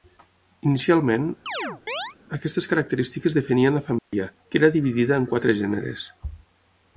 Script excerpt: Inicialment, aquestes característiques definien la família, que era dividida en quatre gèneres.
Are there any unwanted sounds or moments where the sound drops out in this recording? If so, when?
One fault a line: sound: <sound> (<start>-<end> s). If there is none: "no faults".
sound: chirp (1.5-2.2 s)
sound: dropout (4.0-4.1 s)